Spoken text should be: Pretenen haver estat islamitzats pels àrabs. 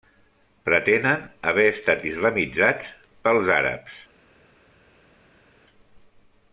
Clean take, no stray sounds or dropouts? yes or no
yes